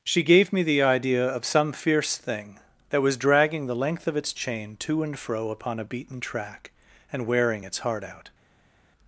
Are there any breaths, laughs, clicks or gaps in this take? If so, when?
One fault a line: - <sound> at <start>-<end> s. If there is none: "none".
none